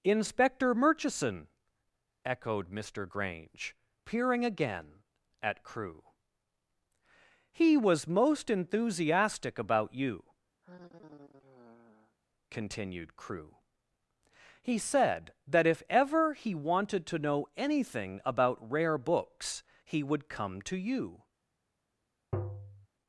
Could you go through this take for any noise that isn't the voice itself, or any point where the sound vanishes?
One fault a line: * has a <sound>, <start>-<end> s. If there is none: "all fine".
* has a sigh, 10.6-12.2 s
* has a tap, 22.3-22.9 s